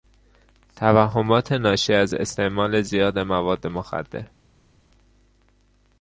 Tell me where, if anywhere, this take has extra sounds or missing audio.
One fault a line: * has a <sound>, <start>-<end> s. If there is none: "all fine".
all fine